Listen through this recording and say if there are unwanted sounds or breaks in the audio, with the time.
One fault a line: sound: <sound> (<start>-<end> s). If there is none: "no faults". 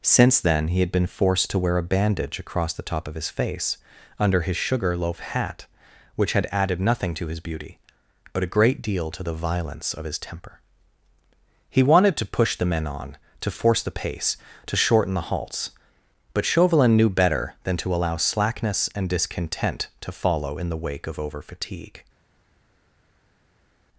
no faults